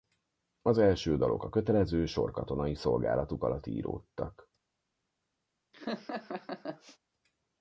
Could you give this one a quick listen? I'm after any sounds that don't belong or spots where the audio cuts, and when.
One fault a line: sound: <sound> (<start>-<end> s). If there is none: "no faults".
sound: laugh (5.7-7.0 s)